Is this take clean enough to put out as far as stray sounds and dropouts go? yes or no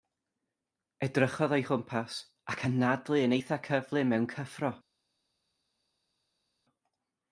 yes